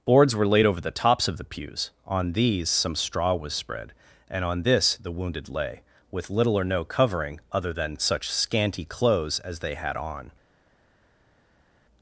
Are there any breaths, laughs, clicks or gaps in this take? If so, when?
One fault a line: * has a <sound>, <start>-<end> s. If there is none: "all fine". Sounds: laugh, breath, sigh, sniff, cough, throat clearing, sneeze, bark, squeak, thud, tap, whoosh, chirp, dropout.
all fine